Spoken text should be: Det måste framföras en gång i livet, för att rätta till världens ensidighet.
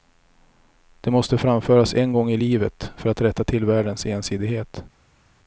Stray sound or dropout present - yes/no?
no